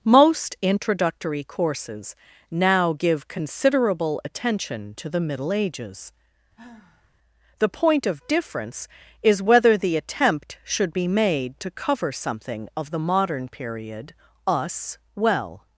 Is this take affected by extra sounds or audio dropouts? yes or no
yes